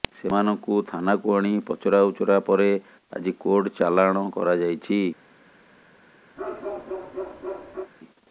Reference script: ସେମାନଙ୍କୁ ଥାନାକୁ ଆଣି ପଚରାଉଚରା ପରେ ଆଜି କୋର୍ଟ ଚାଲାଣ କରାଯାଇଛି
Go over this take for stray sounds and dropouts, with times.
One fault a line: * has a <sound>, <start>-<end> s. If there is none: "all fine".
* has a bark, 6.4-7.9 s